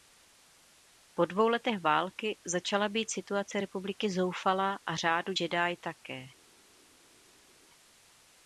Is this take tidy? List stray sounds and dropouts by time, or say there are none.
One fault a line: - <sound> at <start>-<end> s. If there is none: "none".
none